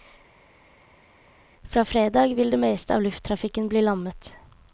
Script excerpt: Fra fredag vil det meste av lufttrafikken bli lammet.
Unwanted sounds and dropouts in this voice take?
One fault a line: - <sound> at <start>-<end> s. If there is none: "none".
none